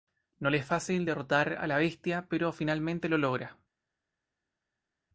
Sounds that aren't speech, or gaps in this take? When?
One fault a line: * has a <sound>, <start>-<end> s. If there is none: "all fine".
all fine